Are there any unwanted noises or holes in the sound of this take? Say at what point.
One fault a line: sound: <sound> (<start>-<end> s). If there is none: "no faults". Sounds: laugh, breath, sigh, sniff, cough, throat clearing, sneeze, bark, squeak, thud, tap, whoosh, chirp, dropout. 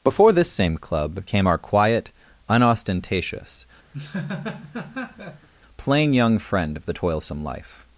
sound: laugh (3.9-5.5 s)